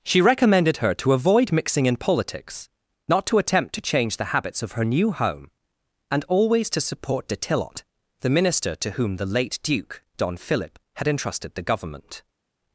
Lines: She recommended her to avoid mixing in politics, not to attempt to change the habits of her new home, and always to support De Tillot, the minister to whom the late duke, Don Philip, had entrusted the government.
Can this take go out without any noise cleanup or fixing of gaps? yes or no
yes